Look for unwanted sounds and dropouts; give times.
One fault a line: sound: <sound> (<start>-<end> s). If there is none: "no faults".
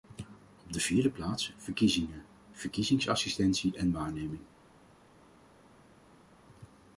no faults